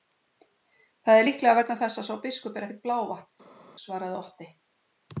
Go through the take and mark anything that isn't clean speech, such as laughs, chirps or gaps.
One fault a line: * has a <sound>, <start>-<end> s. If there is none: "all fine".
all fine